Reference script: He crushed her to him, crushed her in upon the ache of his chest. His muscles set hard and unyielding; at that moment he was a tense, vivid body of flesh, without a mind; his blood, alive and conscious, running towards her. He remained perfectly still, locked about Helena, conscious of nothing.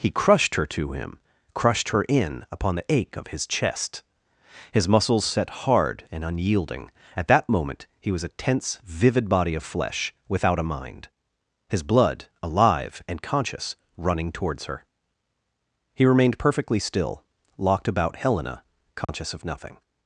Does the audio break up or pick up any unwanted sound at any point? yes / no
yes